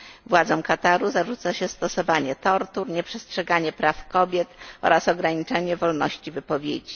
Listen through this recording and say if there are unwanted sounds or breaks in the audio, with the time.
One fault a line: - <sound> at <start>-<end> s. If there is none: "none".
none